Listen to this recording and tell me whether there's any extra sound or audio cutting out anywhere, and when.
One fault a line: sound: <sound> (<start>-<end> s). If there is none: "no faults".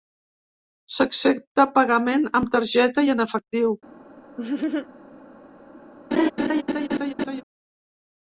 sound: laugh (4.4-4.9 s)
sound: laugh (6.1-7.4 s)